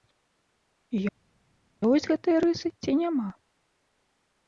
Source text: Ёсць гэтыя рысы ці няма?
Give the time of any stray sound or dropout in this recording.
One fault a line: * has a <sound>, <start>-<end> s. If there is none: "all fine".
all fine